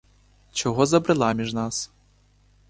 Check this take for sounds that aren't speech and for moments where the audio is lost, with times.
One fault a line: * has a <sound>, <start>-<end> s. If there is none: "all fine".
all fine